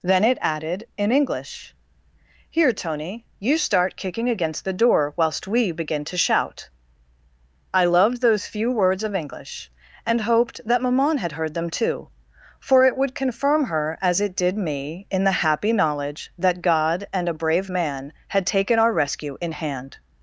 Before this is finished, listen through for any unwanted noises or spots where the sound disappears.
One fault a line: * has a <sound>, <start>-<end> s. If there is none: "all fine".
all fine